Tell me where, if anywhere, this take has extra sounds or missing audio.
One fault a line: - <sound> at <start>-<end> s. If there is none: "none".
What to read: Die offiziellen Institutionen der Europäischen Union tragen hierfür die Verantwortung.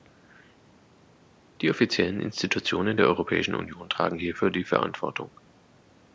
none